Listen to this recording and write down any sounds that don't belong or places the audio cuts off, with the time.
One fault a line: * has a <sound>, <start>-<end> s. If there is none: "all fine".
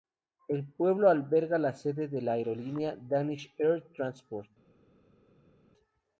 all fine